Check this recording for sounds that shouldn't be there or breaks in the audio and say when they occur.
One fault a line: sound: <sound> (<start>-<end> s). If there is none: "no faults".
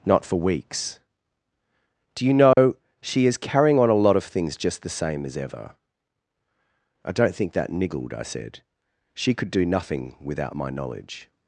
sound: dropout (2.5-2.6 s)